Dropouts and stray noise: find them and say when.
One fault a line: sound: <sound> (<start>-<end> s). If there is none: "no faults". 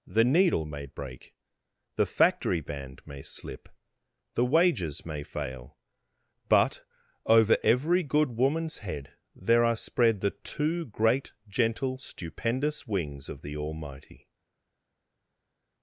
no faults